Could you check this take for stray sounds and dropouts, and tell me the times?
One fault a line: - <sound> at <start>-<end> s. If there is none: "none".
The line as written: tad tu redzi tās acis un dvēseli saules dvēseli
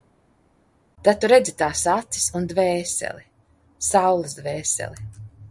none